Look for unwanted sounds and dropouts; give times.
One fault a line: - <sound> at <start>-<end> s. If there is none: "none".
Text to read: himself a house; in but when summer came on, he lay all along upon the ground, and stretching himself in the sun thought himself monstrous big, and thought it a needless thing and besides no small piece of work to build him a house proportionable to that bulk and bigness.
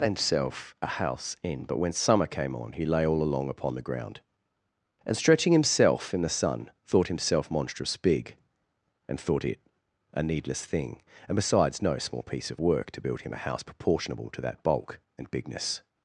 none